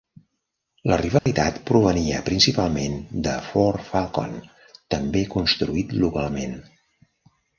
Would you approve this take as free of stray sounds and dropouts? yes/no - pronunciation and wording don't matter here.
no